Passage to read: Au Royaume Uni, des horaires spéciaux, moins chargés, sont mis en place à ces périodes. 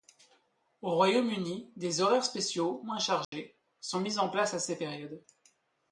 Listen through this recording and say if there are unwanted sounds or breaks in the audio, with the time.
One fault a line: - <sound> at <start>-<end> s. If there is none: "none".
- dropout at 3.2-3.3 s